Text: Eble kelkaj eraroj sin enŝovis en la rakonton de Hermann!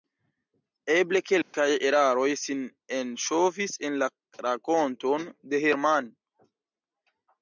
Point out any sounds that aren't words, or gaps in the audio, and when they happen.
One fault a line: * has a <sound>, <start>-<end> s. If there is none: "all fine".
* has a dropout, 1.4-1.5 s